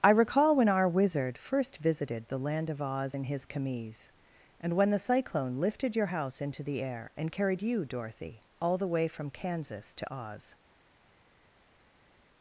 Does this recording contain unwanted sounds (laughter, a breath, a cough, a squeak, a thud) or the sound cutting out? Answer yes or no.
no